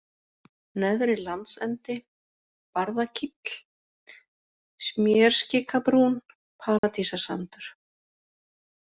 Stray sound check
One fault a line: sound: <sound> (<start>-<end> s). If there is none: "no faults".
sound: dropout (6.8-6.8 s)